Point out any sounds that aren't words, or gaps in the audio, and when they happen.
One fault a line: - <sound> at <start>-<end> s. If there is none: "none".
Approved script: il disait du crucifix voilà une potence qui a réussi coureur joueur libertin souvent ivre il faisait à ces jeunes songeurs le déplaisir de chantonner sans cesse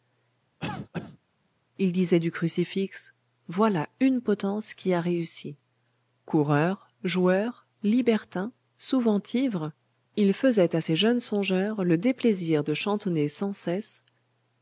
- cough at 0.6-1.2 s